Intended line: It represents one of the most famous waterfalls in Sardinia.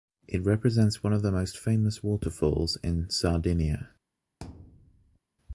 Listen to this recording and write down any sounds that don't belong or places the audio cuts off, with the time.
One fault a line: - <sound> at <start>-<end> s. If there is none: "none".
- thud at 4.4-5.2 s